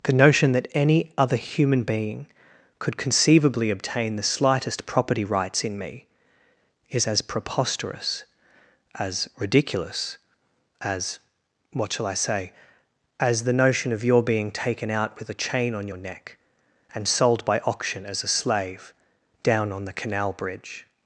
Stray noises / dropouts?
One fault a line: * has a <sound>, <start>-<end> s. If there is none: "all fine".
all fine